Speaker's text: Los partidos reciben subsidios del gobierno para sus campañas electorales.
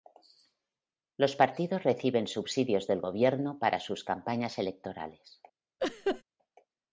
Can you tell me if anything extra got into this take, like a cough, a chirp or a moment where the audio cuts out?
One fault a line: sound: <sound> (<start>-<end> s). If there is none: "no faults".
sound: laugh (5.8-6.2 s)